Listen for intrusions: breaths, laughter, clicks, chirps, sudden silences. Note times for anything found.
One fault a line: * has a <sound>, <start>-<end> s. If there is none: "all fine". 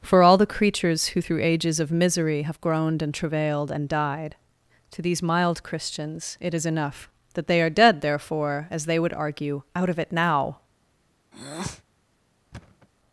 * has a breath, 11.3-11.8 s
* has a thud, 12.5-12.9 s